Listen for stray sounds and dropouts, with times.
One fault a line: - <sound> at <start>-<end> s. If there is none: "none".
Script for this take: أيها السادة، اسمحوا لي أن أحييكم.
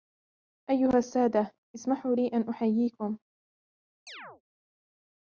- chirp at 4.1-4.4 s